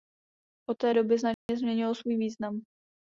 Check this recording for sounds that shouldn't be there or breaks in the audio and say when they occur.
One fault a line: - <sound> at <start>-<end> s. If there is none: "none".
- dropout at 1.3-1.5 s